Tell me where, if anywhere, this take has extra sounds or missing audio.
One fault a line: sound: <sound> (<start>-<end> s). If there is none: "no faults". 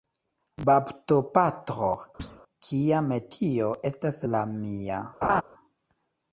sound: thud (2.2-2.4 s)
sound: laugh (5.2-5.4 s)